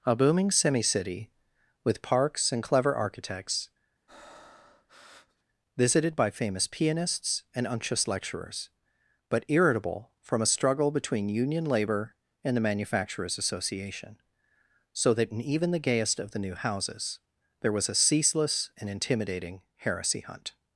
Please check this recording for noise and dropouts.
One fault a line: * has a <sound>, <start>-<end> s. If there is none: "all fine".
* has a breath, 4.1-5.4 s